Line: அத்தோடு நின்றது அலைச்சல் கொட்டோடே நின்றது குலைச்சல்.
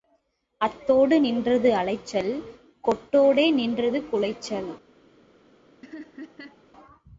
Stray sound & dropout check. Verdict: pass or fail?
fail